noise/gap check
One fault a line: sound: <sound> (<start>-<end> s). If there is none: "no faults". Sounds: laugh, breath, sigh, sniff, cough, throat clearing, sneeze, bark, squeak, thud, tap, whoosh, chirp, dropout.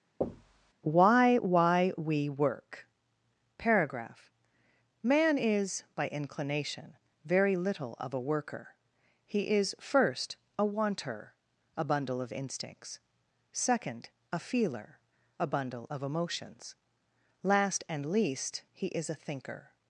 sound: thud (0.2-0.7 s)